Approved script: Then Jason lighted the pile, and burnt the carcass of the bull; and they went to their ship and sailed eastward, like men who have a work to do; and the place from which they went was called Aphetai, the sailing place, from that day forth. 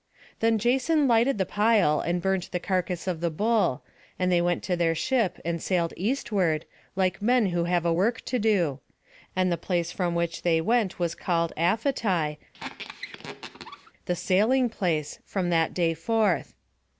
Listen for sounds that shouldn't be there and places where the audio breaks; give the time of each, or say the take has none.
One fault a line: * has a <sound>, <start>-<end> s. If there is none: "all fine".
* has a squeak, 12.5-13.9 s